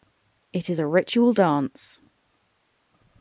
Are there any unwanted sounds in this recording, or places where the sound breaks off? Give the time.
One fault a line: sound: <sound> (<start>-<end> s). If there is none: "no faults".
no faults